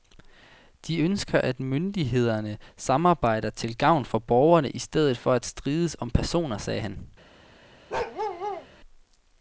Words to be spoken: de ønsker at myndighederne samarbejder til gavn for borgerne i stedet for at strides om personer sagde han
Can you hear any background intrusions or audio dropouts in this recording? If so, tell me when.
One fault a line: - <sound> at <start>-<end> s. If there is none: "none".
- bark at 7.9-8.7 s